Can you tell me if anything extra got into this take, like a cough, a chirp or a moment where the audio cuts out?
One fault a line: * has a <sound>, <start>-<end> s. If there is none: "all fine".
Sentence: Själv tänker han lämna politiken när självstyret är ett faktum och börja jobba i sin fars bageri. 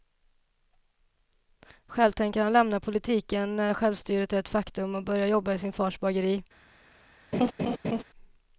* has a laugh, 7.3-8.0 s